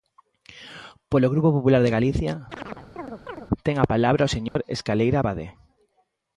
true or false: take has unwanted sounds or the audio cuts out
true